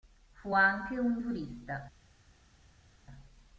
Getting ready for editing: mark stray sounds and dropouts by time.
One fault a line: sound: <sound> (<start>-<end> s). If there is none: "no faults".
no faults